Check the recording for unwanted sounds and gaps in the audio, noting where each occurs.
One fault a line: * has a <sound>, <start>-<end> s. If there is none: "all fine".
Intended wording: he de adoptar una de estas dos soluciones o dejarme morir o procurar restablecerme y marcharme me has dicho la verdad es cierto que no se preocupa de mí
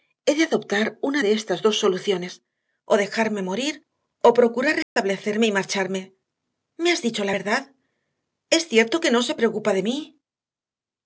* has a dropout, 4.8-5.0 s